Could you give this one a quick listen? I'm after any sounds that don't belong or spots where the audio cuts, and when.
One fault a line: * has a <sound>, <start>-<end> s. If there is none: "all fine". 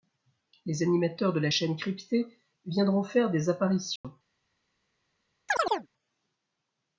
* has a dropout, 4.0-4.0 s
* has a chirp, 5.5-5.9 s